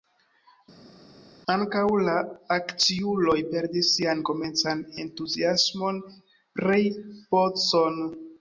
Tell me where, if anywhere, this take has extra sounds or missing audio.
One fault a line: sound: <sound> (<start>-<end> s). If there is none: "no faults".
no faults